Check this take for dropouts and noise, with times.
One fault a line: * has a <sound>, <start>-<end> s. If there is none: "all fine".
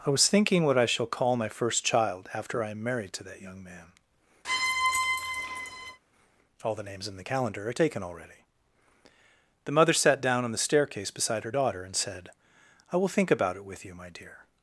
* has a squeak, 4.4-6.0 s